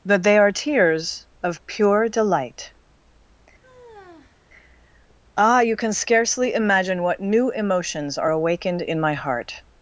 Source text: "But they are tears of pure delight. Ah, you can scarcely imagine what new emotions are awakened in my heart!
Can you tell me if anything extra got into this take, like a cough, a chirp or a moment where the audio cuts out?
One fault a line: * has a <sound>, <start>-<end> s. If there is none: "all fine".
* has a sigh, 3.6-4.4 s